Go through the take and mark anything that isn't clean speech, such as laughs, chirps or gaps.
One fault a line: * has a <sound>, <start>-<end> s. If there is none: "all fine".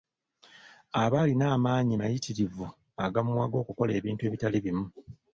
all fine